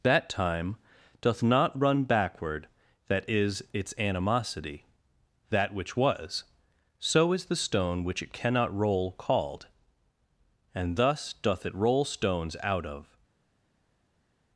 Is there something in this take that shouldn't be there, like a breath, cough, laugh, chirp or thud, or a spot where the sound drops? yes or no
no